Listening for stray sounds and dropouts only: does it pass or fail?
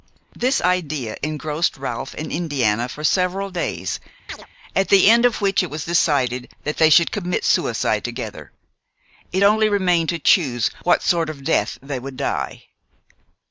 fail